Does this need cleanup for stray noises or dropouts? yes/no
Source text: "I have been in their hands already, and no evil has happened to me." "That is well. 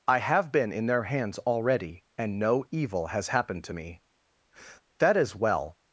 no